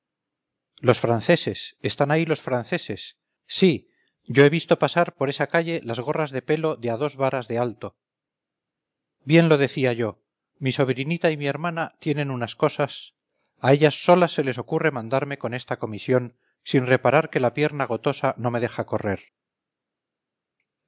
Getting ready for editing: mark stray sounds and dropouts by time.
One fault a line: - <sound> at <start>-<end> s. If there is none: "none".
none